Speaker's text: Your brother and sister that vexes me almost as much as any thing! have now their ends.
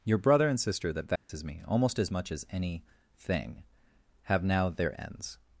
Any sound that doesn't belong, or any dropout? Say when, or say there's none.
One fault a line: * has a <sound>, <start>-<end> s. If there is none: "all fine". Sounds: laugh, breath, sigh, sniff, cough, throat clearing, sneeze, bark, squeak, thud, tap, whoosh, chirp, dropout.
* has a dropout, 1.2-1.3 s